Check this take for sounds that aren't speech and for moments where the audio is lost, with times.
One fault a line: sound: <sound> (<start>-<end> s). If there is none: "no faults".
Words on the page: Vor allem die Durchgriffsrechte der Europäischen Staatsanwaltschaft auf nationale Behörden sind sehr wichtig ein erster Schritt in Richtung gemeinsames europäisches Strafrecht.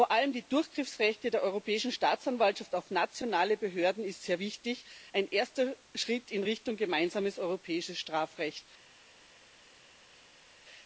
no faults